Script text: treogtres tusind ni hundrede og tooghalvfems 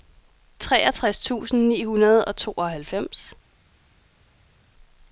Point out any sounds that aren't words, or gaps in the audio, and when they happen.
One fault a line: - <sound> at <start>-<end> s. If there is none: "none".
none